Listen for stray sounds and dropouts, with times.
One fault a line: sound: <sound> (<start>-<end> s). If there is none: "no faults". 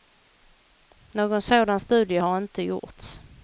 no faults